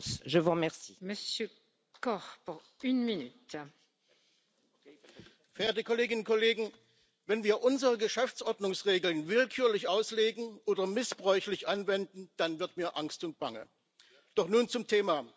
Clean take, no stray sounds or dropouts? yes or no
yes